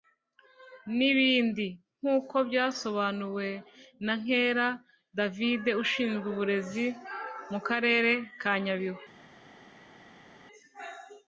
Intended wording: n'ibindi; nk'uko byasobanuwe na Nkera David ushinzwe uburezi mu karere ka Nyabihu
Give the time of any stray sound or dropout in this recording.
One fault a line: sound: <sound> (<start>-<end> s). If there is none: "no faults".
no faults